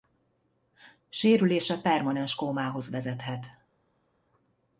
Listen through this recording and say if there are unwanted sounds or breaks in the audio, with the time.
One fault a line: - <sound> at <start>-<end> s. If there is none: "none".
none